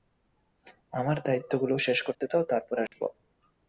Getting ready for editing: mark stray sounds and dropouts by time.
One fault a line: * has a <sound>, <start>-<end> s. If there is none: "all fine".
* has a dropout, 2.1-2.2 s
* has a dropout, 2.9-2.9 s